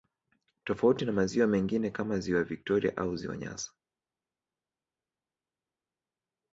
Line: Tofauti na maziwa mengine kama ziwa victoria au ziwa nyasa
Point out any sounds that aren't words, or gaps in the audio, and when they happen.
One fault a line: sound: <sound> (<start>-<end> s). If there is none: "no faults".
no faults